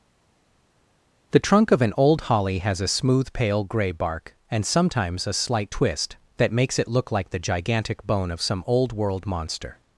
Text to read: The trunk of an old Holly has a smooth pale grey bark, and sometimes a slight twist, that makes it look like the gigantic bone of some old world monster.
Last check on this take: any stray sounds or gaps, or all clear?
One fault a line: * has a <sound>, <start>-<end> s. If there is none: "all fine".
all fine